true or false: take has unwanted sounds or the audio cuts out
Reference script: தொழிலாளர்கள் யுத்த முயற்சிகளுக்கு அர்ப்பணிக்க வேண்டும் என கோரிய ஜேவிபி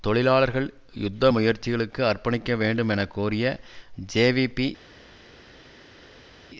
false